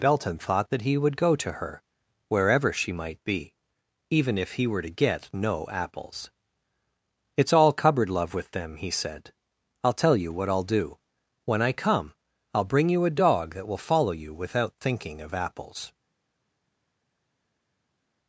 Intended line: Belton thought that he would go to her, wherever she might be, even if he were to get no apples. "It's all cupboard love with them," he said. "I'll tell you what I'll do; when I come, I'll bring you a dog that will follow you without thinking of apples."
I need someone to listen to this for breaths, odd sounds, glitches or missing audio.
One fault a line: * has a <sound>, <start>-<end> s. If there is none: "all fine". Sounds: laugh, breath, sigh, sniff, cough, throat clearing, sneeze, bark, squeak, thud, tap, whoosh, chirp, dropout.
all fine